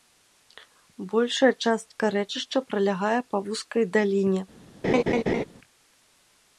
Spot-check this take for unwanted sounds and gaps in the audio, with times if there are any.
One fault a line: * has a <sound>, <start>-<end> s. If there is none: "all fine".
* has a laugh, 4.8-5.4 s